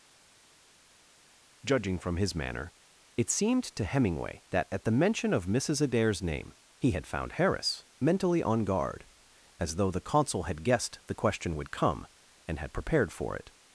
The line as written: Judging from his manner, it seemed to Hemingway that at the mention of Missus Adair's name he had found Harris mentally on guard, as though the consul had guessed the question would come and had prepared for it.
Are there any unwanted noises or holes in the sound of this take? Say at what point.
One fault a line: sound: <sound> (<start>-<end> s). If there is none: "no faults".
no faults